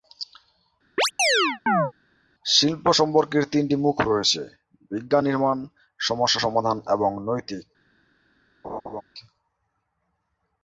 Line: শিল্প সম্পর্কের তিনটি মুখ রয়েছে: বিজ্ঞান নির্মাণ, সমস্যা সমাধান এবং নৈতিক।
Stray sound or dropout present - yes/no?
yes